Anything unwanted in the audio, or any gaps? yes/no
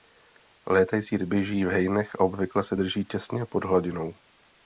no